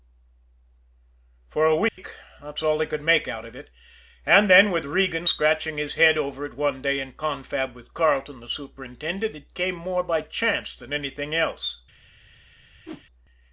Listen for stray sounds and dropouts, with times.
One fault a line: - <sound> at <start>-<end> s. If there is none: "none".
- dropout at 1.9-2.0 s
- whoosh at 12.9-13.0 s